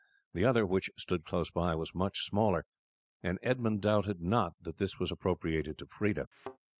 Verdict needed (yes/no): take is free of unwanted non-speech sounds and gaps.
no